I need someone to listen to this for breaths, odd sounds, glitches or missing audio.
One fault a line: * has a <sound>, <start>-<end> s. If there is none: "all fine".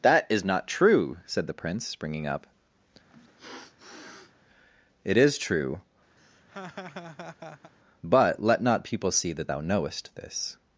* has a sniff, 3.1-4.3 s
* has a laugh, 6.2-7.7 s